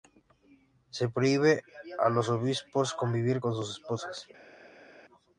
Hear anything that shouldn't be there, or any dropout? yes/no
no